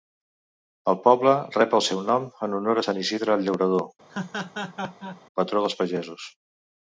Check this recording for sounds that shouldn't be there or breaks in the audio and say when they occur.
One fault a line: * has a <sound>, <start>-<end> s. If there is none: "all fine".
* has a laugh, 4.1-5.2 s